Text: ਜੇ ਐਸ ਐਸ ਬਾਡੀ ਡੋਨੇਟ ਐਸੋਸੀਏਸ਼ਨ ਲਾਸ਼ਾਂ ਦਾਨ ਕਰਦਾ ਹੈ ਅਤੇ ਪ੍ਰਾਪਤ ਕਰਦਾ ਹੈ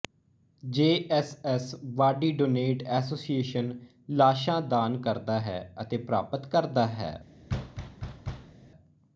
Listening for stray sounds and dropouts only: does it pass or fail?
fail